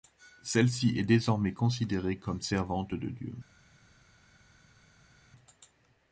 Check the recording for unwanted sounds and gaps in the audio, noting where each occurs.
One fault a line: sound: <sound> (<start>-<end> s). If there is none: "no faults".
no faults